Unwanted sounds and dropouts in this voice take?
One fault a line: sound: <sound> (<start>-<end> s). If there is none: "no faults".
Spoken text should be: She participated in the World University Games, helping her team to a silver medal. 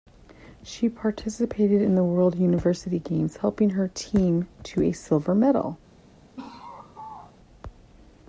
sound: laugh (6.4-7.4 s)